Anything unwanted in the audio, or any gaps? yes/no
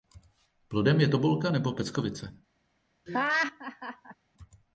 yes